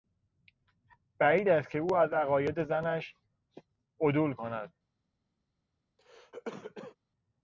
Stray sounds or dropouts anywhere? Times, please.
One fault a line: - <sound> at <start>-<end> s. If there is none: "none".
- cough at 6.0-7.0 s